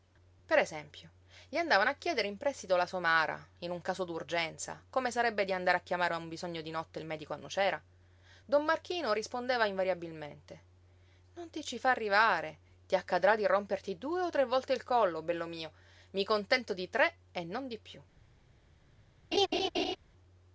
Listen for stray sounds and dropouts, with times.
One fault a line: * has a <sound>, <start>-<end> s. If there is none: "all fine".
* has a laugh, 19.3-20.0 s